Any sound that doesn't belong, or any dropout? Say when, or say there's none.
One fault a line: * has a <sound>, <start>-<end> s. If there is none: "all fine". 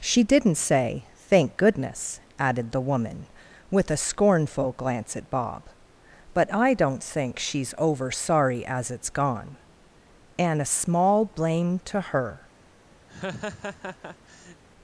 * has a laugh, 13.1-14.6 s